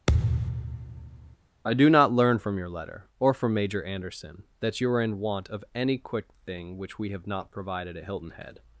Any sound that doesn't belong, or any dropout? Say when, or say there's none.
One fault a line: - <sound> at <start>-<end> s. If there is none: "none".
- thud at 0.1-1.4 s